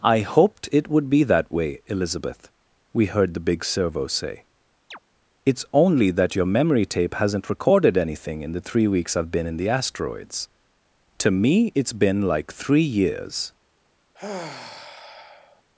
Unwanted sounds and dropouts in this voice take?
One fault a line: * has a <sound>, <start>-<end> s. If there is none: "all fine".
* has a chirp, 4.9-5.0 s
* has a sigh, 14.1-15.6 s